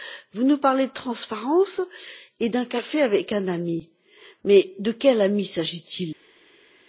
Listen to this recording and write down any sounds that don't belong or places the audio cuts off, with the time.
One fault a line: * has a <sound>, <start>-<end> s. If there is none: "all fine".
all fine